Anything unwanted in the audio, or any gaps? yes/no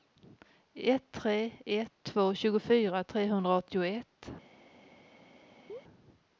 yes